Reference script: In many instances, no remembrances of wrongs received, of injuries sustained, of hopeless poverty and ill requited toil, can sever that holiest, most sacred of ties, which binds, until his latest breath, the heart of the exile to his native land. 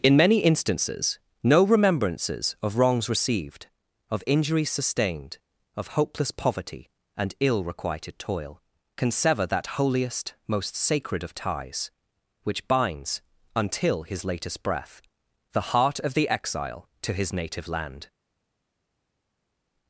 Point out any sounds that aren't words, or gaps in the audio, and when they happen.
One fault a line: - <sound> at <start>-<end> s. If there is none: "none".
none